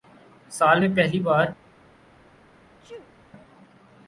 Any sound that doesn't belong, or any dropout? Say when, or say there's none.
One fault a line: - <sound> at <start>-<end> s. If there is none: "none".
- sneeze at 2.8-3.1 s